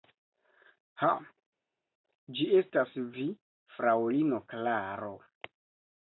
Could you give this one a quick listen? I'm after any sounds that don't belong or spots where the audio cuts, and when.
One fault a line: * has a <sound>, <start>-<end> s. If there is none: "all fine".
all fine